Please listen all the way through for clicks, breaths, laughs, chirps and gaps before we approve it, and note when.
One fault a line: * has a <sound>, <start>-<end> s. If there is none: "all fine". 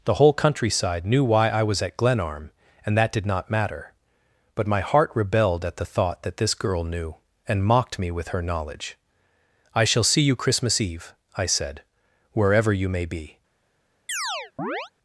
* has a chirp, 14.1-14.9 s